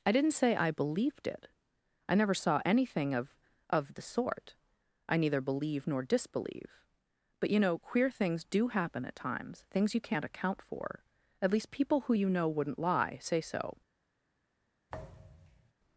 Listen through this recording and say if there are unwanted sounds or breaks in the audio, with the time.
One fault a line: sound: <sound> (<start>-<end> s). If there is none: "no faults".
sound: thud (14.9-15.7 s)